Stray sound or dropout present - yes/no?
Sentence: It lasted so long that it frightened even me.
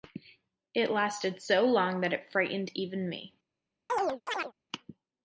yes